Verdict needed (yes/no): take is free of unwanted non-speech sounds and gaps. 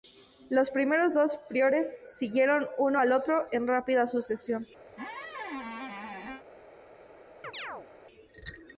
no